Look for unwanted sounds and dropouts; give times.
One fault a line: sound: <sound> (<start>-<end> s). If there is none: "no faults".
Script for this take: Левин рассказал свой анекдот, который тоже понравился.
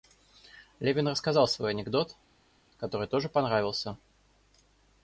no faults